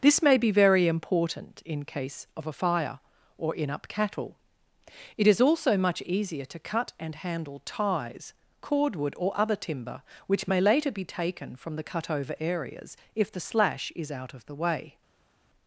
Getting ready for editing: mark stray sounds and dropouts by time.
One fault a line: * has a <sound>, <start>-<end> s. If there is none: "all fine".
all fine